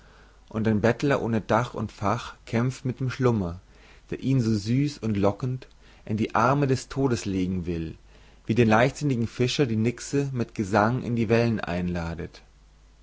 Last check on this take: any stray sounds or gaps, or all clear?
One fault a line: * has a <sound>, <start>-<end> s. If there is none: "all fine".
all fine